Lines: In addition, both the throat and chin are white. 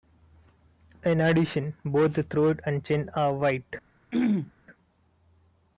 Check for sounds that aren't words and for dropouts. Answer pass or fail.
fail